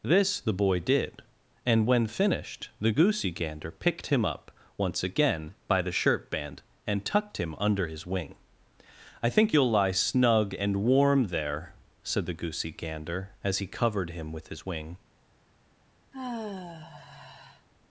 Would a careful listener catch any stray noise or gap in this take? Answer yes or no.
yes